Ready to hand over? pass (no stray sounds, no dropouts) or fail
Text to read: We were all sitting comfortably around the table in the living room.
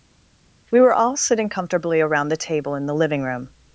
pass